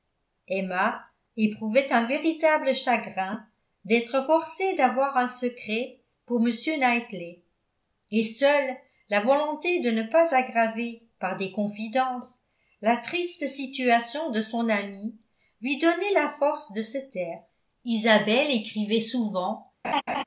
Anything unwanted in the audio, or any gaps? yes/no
yes